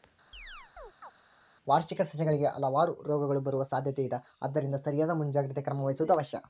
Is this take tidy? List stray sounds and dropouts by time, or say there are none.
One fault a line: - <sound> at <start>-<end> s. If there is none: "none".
- chirp at 0.3-1.1 s